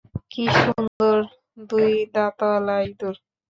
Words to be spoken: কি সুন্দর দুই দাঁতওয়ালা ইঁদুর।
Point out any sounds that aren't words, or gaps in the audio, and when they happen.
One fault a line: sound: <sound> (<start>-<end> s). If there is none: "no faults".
sound: dropout (0.9-1.0 s)